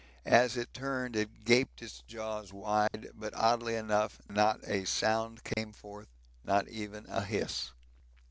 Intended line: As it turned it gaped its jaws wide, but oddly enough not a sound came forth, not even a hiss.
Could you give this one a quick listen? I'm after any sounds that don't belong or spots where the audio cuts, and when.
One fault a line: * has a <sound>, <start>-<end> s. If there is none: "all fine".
* has a dropout, 2.9-2.9 s
* has a dropout, 5.5-5.6 s